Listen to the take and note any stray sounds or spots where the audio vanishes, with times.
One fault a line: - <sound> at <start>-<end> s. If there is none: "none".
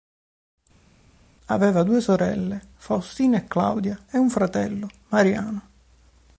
none